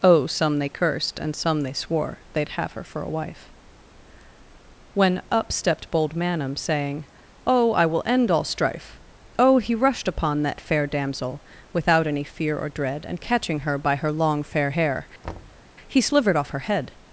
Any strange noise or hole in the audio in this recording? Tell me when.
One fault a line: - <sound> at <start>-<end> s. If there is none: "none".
- thud at 15.2-15.6 s